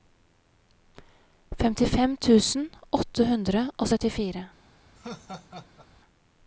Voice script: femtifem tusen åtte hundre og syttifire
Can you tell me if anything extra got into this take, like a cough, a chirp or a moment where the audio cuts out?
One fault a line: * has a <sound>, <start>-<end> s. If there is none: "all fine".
* has a laugh, 5.0-5.9 s